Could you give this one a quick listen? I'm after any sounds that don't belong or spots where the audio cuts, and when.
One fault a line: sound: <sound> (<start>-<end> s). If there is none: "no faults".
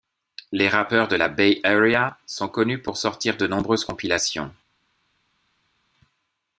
no faults